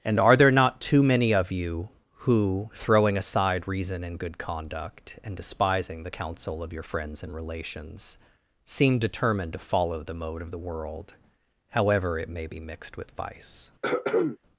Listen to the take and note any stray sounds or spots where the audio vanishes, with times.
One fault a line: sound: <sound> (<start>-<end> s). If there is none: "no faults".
sound: throat clearing (13.8-14.4 s)